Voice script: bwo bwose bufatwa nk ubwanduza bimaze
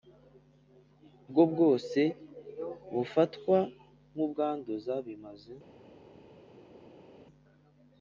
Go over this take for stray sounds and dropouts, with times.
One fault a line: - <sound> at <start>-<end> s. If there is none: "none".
none